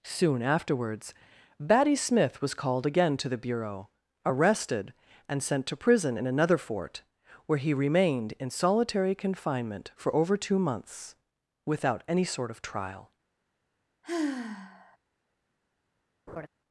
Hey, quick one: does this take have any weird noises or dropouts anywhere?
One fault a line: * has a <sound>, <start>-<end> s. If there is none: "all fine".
* has a sigh, 14.0-15.0 s
* has a laugh, 16.3-16.5 s